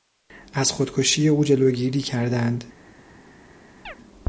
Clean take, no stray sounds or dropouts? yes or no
no